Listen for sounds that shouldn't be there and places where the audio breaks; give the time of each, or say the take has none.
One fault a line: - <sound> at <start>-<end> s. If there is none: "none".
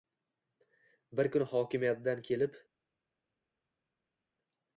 none